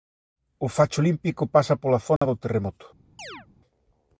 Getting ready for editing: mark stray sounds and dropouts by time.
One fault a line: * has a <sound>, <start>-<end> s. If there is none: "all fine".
* has a dropout, 2.2-2.2 s
* has a chirp, 3.2-3.5 s